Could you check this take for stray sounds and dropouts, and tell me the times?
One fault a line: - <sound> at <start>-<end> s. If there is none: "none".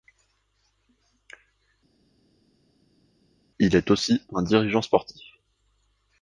none